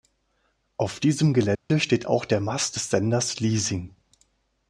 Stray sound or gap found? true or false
true